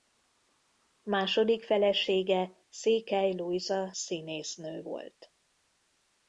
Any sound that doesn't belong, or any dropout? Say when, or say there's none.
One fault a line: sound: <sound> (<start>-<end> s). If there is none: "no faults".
no faults